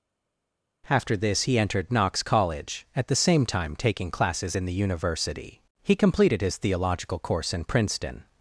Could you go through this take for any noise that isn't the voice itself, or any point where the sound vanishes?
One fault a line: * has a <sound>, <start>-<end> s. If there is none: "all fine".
all fine